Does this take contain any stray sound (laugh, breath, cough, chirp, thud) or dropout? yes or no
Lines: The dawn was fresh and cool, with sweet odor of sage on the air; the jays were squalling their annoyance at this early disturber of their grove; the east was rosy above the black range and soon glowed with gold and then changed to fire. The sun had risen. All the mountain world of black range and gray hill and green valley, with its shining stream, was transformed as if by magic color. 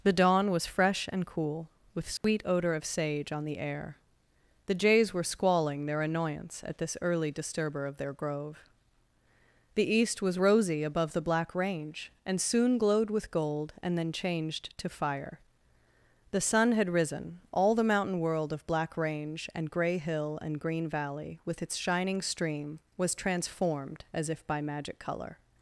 yes